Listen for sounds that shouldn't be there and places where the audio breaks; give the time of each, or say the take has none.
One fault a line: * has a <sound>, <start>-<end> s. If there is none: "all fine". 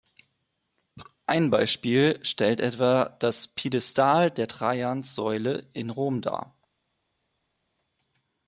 all fine